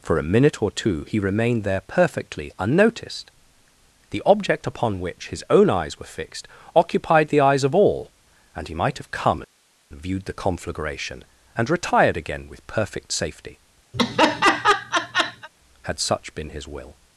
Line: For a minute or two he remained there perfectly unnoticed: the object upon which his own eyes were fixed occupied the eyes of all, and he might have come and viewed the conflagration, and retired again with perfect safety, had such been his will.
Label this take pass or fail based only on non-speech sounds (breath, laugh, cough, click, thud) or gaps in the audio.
fail